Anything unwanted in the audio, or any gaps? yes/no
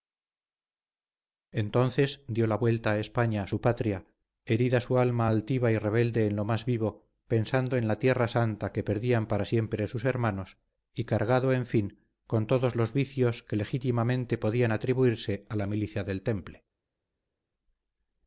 no